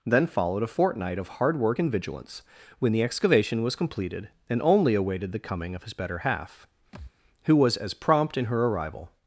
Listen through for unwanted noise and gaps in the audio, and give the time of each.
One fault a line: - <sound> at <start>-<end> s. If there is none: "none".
- thud at 6.9-7.1 s